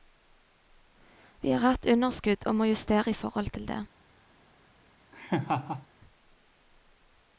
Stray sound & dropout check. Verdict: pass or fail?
fail